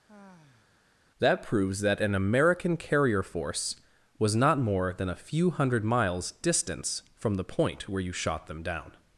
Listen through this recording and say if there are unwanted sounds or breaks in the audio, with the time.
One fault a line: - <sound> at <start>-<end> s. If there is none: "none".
- sigh at 0.1-0.9 s